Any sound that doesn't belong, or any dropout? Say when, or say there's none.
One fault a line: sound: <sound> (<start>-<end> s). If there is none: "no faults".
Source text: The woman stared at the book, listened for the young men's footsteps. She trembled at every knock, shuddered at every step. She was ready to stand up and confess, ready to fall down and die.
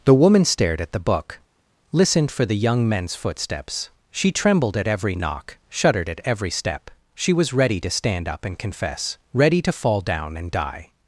no faults